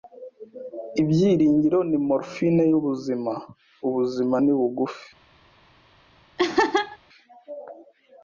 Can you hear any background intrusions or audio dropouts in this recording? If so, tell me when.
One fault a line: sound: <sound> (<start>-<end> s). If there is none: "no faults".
sound: laugh (6.4-7.0 s)